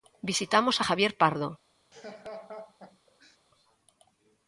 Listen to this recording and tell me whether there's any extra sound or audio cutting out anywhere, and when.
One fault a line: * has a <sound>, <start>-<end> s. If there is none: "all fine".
* has a laugh, 1.9-3.4 s